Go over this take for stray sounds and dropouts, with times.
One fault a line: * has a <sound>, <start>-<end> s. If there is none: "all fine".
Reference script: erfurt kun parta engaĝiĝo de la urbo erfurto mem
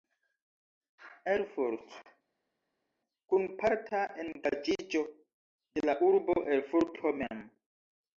all fine